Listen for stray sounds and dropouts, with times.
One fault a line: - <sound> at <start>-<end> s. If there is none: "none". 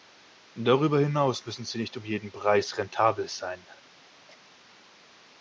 none